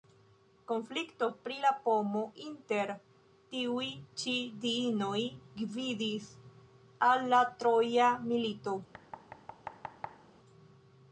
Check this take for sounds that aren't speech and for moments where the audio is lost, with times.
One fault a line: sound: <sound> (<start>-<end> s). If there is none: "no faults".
sound: thud (8.9-10.3 s)